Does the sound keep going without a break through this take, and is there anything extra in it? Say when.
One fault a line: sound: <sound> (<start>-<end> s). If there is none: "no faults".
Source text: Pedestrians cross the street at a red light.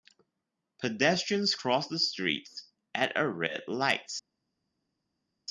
no faults